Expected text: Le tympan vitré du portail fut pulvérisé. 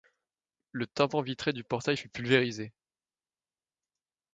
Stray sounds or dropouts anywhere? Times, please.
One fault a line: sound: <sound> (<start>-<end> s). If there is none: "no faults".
no faults